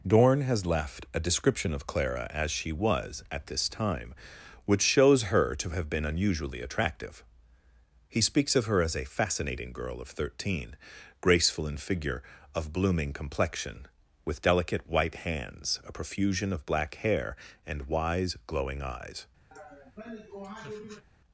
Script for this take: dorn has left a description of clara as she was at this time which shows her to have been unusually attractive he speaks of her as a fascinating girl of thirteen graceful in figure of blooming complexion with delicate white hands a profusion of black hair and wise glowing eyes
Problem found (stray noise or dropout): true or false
true